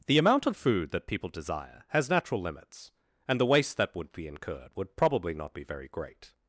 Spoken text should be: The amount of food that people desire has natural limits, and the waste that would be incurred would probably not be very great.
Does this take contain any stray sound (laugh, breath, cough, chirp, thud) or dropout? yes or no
no